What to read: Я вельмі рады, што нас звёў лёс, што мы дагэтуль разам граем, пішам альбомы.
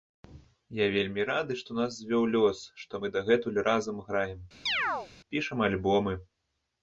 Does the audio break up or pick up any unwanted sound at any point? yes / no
yes